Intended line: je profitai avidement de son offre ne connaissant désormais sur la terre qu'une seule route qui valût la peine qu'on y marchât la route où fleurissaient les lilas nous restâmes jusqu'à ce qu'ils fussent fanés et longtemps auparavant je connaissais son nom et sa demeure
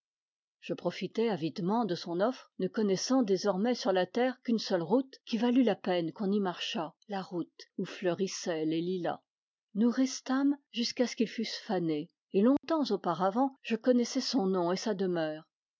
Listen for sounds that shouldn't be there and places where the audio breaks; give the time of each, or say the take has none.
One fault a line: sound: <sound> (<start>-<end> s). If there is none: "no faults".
sound: dropout (12.6-12.6 s)